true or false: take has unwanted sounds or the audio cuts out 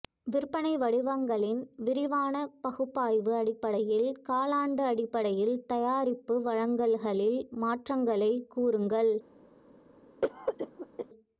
true